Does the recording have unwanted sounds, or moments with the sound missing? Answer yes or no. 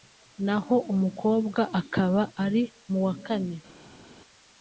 no